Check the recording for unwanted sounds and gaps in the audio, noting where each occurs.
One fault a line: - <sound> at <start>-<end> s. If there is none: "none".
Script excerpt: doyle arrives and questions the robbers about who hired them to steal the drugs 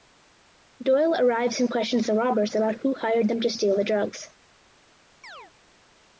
- chirp at 5.2-5.5 s